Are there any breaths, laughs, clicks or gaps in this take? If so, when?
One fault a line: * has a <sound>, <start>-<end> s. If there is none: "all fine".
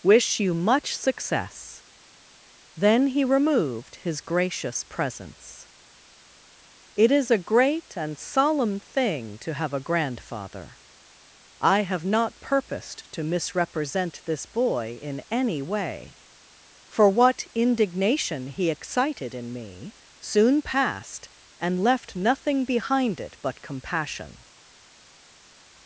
all fine